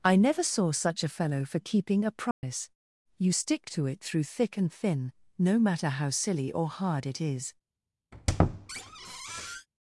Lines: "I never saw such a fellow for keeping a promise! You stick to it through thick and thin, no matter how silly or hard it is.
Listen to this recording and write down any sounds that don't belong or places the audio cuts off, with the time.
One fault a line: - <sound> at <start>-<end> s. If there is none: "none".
- dropout at 2.3-2.4 s
- squeak at 8.1-9.7 s